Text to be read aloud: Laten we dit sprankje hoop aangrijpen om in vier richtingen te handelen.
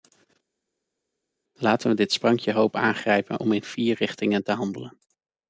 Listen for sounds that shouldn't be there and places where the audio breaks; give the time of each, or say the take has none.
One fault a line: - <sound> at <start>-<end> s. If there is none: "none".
none